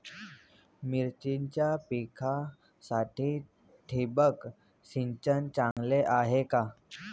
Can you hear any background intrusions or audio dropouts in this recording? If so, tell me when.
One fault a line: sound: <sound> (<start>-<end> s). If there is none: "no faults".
sound: dropout (5.7-5.8 s)